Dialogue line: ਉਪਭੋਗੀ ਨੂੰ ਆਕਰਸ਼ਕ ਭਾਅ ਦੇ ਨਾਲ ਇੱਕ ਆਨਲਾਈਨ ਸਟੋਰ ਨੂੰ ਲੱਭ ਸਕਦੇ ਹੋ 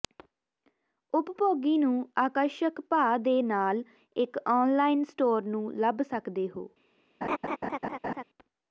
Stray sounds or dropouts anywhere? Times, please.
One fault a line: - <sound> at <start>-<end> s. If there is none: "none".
- laugh at 7.2-8.2 s